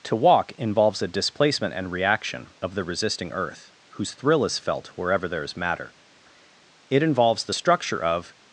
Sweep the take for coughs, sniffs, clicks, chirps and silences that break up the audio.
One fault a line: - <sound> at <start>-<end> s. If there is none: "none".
none